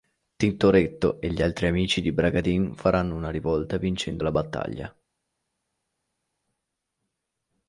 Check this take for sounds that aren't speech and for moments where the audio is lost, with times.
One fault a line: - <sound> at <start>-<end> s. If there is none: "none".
none